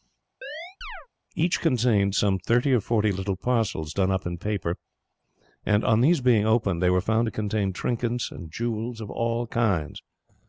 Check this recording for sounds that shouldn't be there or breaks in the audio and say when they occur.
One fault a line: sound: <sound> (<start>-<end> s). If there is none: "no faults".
sound: chirp (0.4-1.1 s)